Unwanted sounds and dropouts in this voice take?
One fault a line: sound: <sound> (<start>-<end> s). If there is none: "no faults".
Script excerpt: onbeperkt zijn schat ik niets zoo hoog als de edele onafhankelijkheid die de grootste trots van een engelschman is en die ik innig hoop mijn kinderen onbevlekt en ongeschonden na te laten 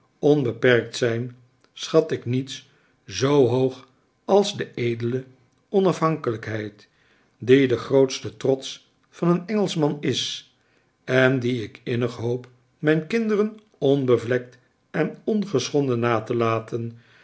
no faults